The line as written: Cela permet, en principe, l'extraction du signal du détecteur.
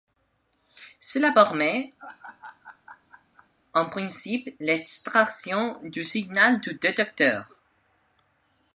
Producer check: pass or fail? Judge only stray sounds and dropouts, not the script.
fail